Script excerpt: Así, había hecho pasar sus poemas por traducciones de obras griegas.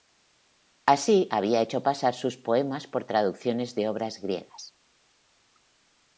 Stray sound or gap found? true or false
false